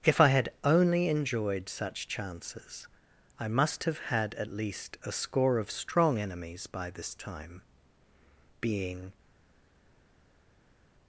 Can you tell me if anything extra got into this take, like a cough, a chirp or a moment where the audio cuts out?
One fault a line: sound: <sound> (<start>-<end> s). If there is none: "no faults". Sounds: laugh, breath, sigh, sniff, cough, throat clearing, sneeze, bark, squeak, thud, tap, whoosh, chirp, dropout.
no faults